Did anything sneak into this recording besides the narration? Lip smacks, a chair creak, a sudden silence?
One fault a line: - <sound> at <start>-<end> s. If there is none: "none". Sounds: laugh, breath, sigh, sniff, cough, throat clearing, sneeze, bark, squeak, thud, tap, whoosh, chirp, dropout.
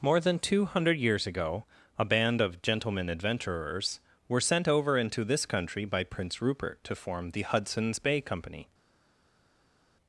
none